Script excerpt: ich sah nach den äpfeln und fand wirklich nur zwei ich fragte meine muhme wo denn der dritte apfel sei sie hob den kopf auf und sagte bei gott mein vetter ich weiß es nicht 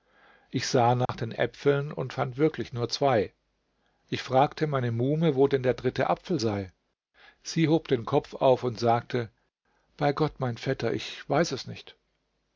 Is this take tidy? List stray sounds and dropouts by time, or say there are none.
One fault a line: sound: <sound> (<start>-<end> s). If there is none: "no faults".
sound: dropout (1.1-1.1 s)